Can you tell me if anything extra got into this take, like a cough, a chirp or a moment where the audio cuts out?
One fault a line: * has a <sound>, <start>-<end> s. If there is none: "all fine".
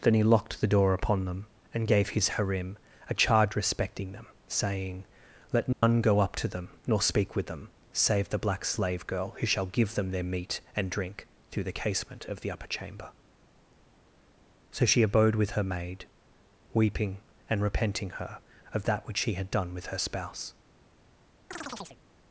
* has a dropout, 5.7-5.8 s
* has a chirp, 21.5-22.0 s